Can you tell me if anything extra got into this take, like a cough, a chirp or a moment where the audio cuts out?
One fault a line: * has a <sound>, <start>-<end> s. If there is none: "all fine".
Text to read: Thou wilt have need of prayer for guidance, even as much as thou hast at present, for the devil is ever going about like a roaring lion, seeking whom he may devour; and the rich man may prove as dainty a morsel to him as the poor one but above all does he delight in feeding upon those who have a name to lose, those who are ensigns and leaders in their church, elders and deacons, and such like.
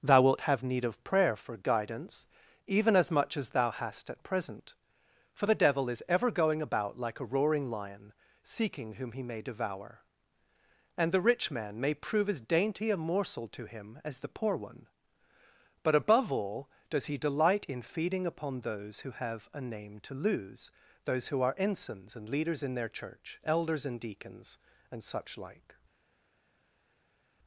all fine